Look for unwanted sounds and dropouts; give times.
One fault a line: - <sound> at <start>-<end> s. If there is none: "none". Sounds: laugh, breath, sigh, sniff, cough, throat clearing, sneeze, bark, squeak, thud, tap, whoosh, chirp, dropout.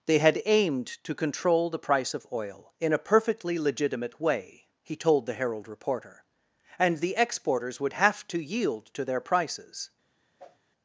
- whoosh at 10.4-10.6 s